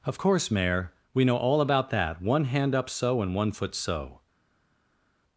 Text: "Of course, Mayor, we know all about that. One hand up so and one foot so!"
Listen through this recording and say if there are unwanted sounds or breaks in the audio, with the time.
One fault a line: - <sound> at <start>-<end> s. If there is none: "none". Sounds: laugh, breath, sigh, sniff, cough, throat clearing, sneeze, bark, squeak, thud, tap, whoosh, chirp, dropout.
none